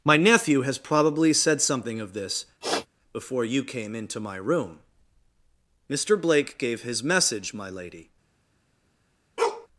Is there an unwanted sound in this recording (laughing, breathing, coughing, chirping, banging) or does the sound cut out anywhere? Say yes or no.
yes